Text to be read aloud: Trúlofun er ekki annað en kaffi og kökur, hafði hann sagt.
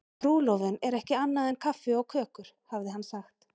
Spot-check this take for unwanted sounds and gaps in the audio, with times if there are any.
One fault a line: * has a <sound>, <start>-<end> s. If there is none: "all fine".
all fine